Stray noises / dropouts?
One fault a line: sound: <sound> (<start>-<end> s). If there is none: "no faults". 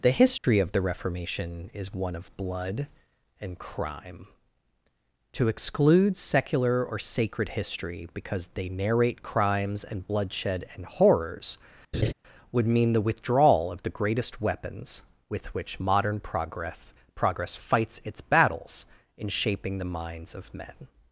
sound: dropout (0.4-0.4 s)
sound: laugh (11.9-12.1 s)